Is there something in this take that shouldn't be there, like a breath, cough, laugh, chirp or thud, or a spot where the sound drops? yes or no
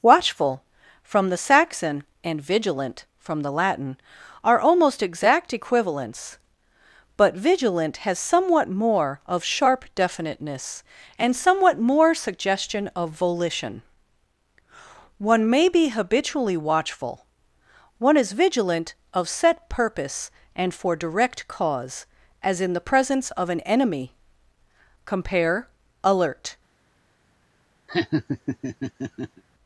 yes